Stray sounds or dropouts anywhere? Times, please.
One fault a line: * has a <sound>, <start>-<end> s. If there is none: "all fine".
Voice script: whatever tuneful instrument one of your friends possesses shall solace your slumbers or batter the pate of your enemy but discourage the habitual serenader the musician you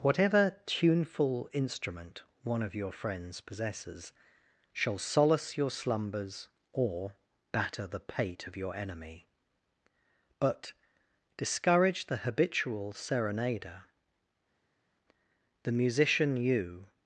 all fine